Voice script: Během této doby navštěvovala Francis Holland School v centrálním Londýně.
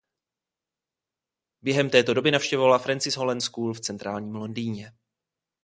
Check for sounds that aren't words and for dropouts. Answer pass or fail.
pass